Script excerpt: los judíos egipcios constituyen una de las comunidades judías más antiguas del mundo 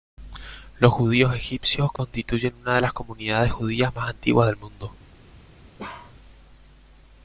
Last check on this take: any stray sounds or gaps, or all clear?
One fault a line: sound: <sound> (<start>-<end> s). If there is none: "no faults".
sound: dropout (2.0-2.0 s)
sound: bark (5.8-6.2 s)